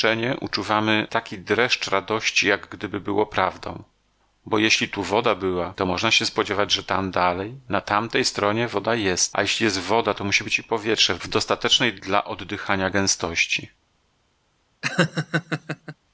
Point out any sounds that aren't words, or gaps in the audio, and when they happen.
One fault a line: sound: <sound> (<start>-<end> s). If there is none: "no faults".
sound: laugh (14.8-16.0 s)